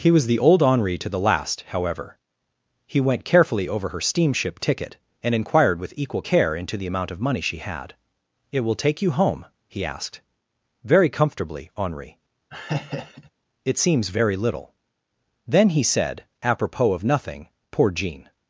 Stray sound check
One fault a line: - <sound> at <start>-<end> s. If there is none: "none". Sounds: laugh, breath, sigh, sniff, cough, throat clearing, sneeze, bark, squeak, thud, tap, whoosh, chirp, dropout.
- laugh at 12.5-13.3 s